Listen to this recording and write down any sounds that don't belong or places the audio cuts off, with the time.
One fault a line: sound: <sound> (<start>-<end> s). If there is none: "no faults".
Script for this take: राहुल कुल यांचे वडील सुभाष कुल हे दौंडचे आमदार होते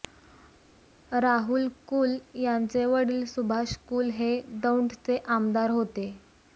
no faults